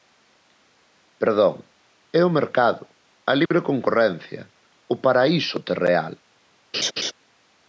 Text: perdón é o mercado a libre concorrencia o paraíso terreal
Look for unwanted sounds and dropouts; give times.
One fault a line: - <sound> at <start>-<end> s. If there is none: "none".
- dropout at 3.5-3.5 s
- laugh at 6.7-7.1 s